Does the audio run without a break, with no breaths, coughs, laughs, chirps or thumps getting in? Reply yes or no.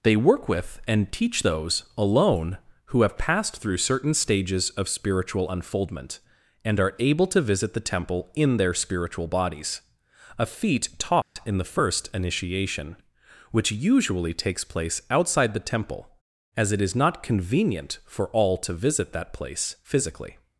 no